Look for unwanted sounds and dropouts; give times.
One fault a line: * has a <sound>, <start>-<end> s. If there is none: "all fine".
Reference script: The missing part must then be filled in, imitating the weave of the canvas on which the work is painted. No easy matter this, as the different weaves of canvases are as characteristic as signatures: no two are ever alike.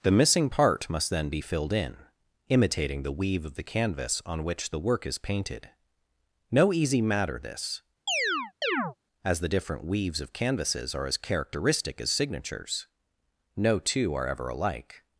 * has a chirp, 8.1-9.0 s